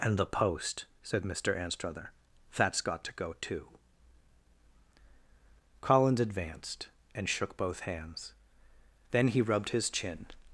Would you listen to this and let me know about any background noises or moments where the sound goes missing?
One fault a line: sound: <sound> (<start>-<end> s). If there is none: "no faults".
no faults